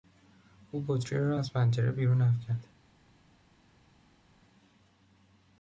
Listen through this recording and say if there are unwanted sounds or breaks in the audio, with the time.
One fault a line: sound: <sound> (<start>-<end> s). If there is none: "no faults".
no faults